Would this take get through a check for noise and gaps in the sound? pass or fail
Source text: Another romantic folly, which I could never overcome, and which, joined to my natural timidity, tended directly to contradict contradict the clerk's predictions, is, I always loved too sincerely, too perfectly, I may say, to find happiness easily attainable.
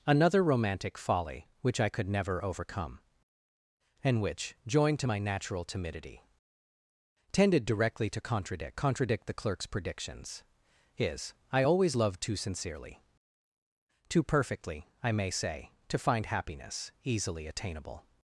pass